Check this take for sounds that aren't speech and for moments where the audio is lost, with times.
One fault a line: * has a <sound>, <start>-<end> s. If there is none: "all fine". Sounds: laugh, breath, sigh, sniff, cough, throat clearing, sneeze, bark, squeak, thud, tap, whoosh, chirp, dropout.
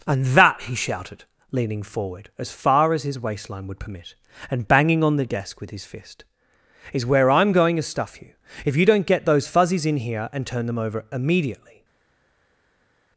all fine